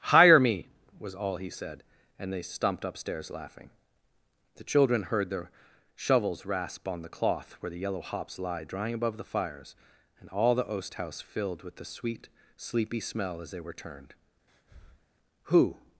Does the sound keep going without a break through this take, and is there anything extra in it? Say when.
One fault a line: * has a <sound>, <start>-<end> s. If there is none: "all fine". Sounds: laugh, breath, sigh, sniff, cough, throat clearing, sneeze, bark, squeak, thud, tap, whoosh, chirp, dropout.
* has a breath, 14.5-15.1 s